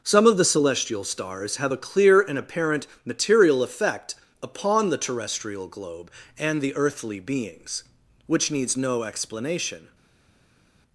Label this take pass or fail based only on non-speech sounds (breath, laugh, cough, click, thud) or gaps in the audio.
pass